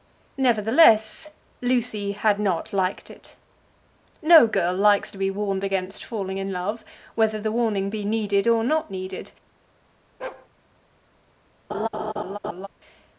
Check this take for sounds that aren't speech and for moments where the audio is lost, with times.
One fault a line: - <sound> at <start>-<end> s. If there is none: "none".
- bark at 10.2-10.5 s
- laugh at 11.7-12.7 s